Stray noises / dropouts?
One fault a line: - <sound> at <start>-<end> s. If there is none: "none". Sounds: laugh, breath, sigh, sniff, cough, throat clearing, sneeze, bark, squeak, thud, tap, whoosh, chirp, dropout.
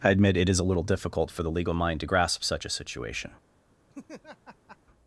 - laugh at 3.9-4.8 s